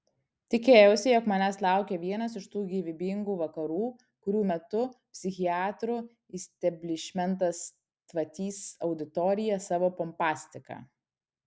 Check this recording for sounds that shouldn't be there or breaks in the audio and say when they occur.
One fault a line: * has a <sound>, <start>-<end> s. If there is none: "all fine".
all fine